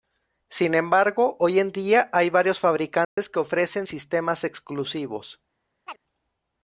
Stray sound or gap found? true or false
true